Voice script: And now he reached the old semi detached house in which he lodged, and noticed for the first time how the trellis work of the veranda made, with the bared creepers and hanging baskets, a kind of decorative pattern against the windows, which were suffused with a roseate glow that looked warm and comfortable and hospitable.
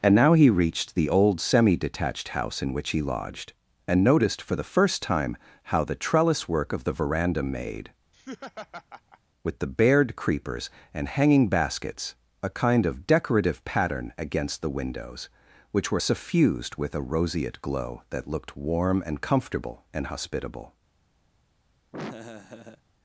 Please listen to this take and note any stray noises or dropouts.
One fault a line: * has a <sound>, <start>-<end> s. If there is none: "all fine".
* has a laugh, 8.1-9.2 s
* has a laugh, 21.9-22.8 s